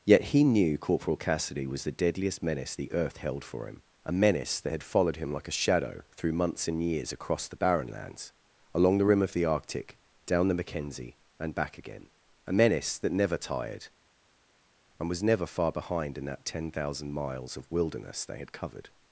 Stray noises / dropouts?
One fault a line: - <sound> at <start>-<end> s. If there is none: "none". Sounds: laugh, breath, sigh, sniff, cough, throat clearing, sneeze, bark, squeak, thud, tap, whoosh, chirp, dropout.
none